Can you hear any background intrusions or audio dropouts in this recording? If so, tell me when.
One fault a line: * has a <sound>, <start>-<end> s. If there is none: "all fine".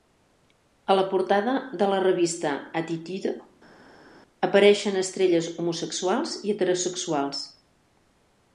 all fine